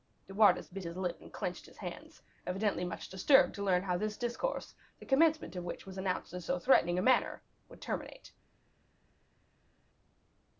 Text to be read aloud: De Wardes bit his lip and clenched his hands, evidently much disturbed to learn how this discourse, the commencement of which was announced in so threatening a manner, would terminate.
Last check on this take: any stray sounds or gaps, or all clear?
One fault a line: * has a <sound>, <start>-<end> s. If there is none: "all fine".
all fine